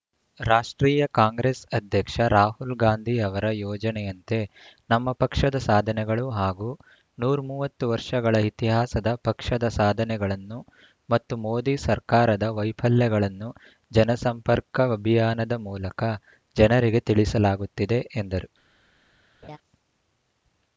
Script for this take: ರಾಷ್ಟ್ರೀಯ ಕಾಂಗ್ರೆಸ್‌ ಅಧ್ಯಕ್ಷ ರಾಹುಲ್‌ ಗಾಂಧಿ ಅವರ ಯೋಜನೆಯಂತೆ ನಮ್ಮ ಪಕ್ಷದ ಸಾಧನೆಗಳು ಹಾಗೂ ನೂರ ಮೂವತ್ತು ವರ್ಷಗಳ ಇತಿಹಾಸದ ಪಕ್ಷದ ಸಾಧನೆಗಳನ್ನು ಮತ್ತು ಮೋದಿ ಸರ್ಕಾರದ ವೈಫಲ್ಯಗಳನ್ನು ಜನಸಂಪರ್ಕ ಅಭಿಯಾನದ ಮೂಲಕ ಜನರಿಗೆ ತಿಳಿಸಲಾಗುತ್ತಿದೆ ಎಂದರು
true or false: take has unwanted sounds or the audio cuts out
true